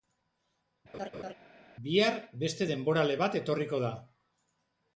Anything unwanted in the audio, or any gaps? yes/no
yes